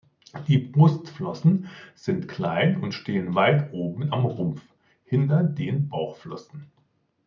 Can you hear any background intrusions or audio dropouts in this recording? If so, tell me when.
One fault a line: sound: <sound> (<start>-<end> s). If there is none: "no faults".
no faults